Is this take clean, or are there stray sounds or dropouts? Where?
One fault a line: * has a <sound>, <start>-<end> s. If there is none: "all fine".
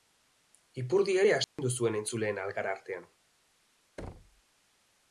* has a dropout, 1.4-1.6 s
* has a thud, 4.0-4.4 s